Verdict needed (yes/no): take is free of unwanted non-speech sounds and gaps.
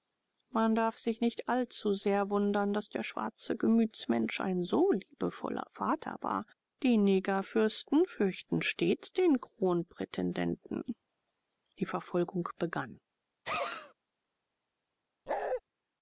no